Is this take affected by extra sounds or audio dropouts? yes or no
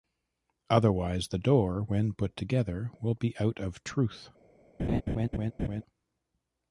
yes